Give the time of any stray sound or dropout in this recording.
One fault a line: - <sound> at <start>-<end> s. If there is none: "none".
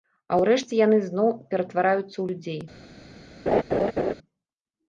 - laugh at 3.5-4.1 s